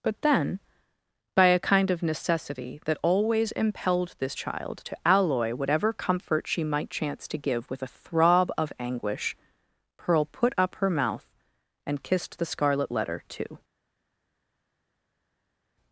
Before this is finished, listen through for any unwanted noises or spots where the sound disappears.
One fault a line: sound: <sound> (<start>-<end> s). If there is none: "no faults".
no faults